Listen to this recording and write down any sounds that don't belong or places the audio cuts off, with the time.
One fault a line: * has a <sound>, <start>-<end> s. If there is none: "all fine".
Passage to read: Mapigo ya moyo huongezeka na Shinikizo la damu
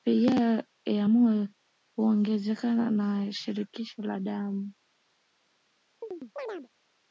* has a chirp, 6.0-6.7 s